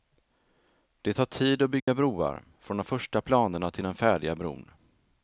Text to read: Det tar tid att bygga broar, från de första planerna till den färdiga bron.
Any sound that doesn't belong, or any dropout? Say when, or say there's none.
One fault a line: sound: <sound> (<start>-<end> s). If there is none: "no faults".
sound: dropout (1.8-1.9 s)